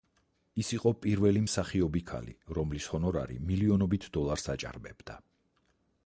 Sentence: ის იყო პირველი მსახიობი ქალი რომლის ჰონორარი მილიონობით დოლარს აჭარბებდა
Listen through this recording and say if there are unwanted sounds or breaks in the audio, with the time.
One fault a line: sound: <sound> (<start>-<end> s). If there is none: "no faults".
no faults